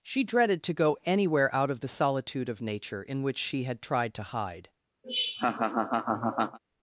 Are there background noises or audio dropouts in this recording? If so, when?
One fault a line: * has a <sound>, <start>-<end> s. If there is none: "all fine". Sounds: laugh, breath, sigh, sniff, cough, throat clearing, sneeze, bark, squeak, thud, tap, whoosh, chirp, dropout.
* has a laugh, 5.0-6.6 s